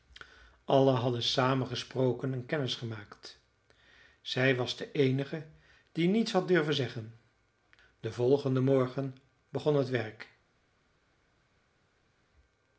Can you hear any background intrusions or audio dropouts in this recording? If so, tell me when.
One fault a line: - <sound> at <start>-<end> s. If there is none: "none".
none